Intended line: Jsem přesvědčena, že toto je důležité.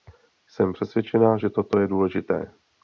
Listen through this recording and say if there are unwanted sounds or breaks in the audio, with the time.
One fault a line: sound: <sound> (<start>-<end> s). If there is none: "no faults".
no faults